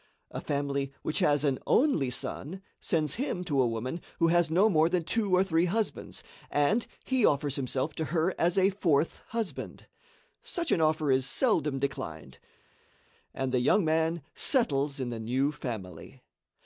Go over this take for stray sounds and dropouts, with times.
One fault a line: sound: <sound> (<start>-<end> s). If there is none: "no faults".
no faults